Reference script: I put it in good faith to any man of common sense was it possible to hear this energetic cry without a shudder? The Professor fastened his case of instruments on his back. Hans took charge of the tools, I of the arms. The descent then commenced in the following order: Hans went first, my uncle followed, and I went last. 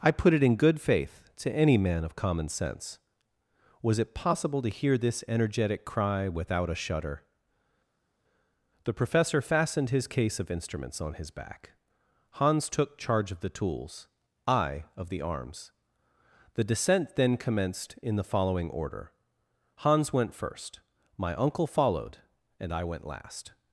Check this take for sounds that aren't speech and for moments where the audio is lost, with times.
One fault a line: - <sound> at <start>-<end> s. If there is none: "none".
none